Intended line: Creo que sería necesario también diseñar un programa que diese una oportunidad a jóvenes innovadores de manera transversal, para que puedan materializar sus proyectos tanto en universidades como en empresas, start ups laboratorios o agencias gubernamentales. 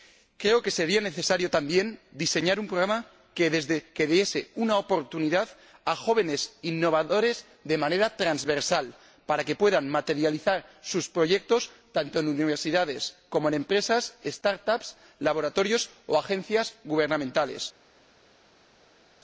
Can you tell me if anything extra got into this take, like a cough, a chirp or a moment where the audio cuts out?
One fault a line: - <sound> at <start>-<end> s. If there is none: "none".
none